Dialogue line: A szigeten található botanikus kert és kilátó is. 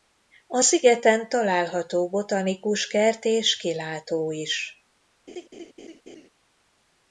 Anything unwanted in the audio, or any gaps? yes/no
yes